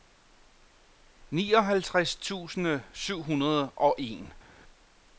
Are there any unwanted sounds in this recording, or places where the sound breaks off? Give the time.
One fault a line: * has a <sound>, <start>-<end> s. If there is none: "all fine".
all fine